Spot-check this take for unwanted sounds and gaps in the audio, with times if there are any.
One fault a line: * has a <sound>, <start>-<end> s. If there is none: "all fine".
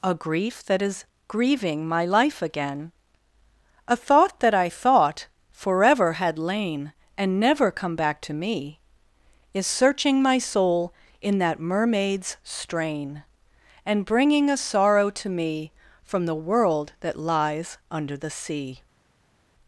all fine